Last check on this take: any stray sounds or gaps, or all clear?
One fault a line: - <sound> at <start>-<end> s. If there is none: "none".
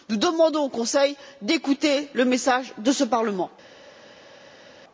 none